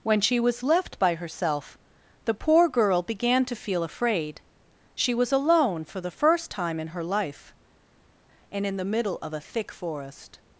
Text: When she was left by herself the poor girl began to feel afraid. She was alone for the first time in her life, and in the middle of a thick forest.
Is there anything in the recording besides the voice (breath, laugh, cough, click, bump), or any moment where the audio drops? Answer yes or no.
no